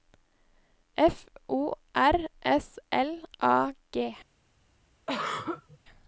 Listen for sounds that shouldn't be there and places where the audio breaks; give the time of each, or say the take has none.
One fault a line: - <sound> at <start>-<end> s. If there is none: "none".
- throat clearing at 5.1-5.8 s